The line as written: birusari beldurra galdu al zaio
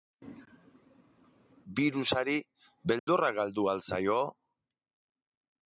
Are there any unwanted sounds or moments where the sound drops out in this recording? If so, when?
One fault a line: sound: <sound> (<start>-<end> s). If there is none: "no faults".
sound: dropout (3.0-3.1 s)